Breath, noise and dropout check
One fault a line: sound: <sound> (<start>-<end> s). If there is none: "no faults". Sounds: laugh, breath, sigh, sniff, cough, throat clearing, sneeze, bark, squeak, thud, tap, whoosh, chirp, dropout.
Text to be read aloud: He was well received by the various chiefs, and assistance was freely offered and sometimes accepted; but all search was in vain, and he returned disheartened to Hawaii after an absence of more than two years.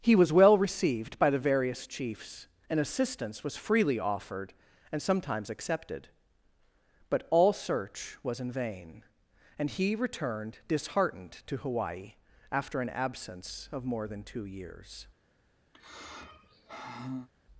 sound: sigh (15.7-17.3 s)